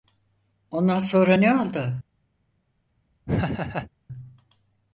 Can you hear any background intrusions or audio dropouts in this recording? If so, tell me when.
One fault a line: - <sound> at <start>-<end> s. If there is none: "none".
- laugh at 3.3-3.9 s